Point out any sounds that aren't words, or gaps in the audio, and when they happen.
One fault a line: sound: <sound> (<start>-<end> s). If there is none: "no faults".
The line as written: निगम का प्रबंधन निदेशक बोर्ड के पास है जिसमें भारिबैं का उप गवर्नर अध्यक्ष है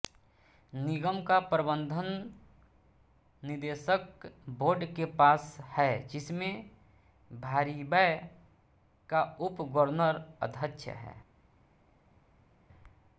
no faults